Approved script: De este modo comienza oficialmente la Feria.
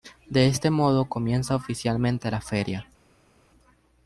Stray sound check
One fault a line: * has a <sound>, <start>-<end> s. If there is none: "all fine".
all fine